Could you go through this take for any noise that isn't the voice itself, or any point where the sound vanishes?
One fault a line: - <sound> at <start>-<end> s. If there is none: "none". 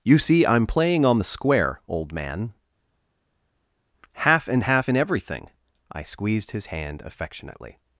none